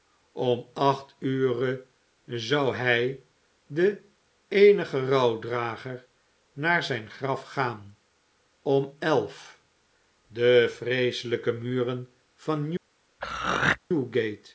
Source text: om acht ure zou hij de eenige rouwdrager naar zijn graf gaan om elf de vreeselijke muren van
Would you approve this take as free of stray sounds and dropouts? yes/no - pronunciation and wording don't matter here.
no